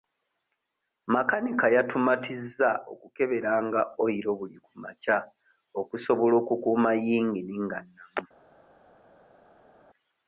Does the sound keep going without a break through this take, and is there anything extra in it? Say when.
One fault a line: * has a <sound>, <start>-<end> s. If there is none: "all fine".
all fine